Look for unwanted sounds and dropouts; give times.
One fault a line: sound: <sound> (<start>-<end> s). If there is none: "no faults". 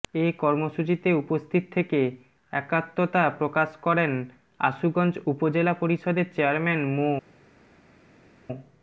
no faults